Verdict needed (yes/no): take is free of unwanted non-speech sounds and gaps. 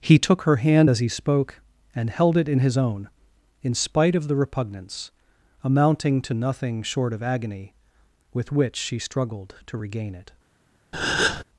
no